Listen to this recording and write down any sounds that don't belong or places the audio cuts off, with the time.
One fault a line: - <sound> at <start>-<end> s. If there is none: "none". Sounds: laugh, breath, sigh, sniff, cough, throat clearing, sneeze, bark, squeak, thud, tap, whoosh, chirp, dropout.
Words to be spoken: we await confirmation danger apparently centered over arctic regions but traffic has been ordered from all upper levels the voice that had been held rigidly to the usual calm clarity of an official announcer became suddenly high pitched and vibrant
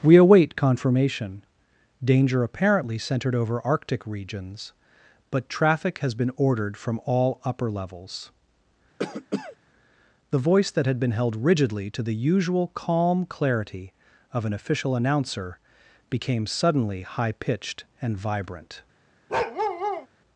- cough at 9.0-9.6 s
- bark at 19.3-20.1 s